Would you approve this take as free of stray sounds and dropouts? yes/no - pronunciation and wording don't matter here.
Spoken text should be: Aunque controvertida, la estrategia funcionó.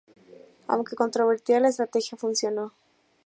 yes